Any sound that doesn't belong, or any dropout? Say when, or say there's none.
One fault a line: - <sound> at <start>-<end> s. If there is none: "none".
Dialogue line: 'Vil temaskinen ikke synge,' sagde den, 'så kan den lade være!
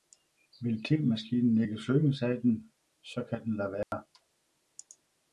- dropout at 3.8-3.9 s